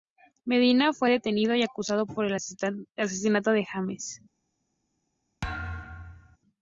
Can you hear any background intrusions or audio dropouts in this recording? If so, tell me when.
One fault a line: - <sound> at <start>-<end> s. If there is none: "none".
- thud at 5.4-6.4 s